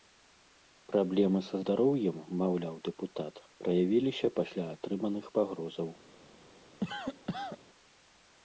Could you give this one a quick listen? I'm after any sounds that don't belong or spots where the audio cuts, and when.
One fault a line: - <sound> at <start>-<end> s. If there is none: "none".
- cough at 6.8-7.6 s